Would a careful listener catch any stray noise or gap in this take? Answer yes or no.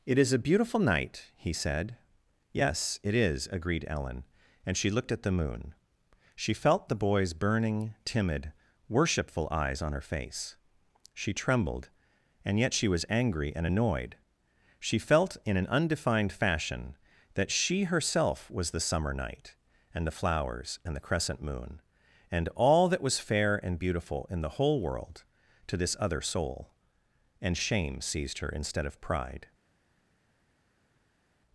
no